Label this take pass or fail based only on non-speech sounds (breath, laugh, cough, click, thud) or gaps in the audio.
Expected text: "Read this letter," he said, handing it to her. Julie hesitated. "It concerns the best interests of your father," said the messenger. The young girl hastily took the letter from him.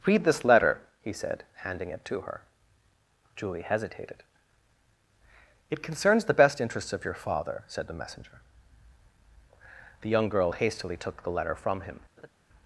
fail